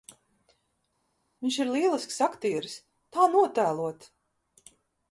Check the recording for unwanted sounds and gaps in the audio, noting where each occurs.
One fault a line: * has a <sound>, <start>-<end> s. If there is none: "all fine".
all fine